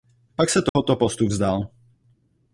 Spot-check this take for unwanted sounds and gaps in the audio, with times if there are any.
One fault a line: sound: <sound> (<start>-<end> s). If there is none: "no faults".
sound: dropout (0.7-0.8 s)